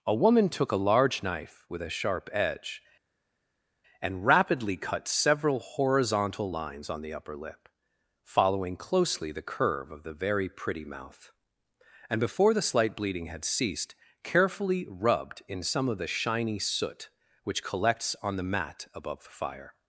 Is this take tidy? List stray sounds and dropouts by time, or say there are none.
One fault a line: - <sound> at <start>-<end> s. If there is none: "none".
none